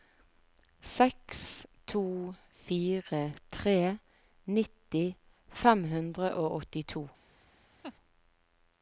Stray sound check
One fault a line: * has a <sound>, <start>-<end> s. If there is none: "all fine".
* has a laugh, 7.8-8.0 s